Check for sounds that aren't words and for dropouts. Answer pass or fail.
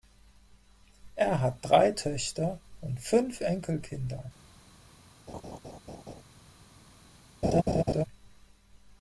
fail